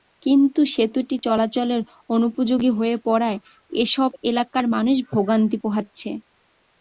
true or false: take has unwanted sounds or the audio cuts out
false